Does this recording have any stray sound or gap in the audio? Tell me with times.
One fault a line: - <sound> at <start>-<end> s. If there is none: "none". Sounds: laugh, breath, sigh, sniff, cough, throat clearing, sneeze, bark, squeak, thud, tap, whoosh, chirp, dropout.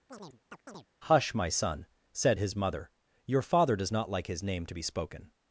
- chirp at 0.1-0.9 s